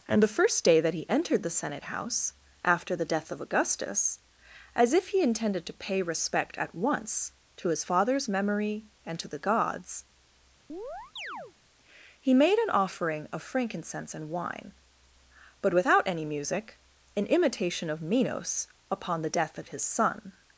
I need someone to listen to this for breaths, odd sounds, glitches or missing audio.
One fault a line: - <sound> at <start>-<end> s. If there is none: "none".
- chirp at 10.7-11.5 s